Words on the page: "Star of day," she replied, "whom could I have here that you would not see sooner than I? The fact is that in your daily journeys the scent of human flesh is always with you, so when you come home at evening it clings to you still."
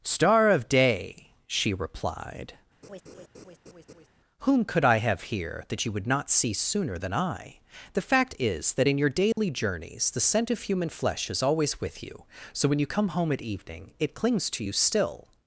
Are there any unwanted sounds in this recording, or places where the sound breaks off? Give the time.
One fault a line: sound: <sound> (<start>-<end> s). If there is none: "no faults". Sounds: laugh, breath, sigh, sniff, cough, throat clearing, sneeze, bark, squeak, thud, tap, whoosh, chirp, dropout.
sound: laugh (2.8-4.1 s)
sound: dropout (9.3-9.4 s)